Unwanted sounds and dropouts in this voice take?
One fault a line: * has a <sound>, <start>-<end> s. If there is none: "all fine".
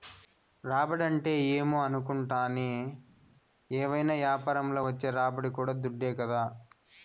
all fine